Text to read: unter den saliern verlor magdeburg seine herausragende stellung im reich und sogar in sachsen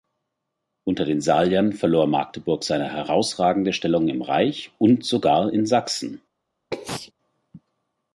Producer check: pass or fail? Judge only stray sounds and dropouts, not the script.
fail